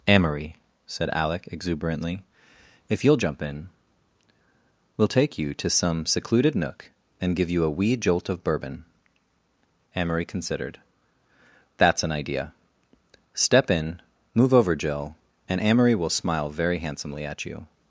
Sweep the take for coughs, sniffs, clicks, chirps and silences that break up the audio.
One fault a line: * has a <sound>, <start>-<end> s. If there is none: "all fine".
all fine